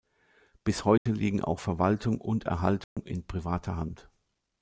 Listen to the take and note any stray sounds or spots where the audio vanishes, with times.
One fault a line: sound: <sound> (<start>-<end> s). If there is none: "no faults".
sound: dropout (1.0-1.1 s)
sound: dropout (2.8-3.0 s)